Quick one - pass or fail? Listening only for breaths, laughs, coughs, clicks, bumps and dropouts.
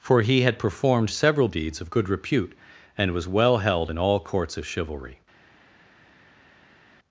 pass